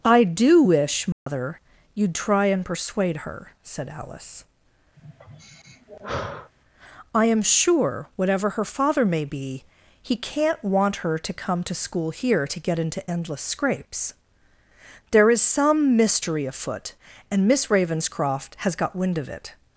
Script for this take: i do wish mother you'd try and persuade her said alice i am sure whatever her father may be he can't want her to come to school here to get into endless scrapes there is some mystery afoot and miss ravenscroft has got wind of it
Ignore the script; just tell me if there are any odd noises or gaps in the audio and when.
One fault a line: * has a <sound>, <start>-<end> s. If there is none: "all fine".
* has a dropout, 1.1-1.3 s
* has a sigh, 5.0-6.5 s